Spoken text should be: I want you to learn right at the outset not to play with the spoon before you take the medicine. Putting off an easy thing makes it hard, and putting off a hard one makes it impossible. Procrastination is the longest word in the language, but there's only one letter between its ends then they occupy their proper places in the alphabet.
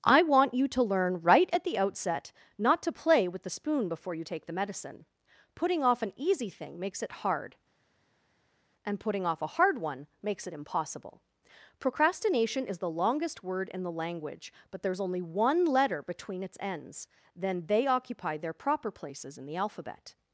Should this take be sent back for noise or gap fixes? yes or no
no